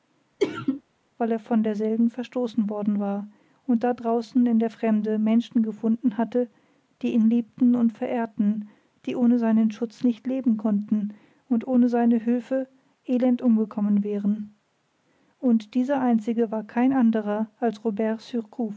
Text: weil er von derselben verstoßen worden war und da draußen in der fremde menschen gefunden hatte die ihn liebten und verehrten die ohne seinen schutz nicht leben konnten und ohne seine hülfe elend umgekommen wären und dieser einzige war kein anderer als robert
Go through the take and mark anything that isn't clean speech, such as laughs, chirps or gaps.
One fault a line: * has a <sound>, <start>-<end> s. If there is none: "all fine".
* has a sneeze, 0.4-0.8 s